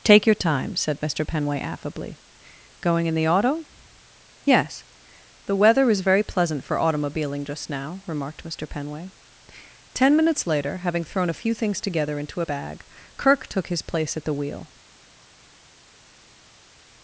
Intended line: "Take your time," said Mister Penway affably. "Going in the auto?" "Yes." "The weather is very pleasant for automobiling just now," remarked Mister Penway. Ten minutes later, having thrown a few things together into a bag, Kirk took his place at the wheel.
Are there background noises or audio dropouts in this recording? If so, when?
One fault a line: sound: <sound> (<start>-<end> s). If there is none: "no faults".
no faults